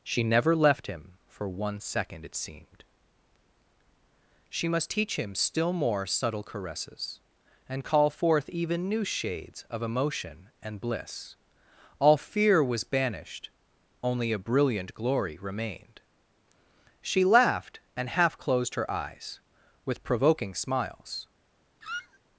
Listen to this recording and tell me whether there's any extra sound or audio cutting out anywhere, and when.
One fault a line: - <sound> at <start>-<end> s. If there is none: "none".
- squeak at 21.8-22.2 s